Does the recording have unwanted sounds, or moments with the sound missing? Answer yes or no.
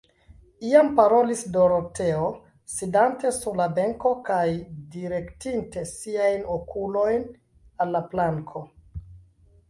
no